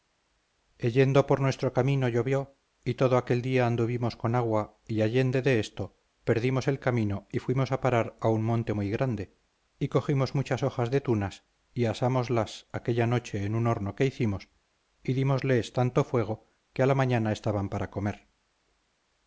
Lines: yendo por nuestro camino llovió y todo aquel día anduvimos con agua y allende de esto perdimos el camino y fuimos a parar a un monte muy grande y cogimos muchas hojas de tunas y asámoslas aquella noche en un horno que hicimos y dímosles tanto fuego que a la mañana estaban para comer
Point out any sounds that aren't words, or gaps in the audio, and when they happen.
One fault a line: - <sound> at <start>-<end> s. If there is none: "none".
none